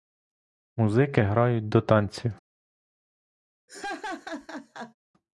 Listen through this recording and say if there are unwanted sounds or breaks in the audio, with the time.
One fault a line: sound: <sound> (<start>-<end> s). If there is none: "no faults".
sound: laugh (3.7-4.9 s)